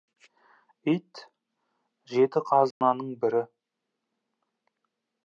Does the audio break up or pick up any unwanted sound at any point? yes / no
yes